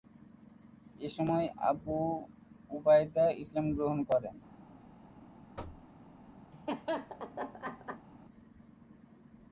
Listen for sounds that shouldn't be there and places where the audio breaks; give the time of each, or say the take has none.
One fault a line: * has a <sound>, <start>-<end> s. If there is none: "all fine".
* has a thud, 5.6-5.9 s
* has a laugh, 6.5-8.1 s